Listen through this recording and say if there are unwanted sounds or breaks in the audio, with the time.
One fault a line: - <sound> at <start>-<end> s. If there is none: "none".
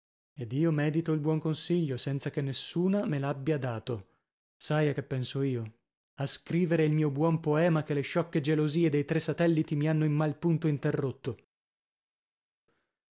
none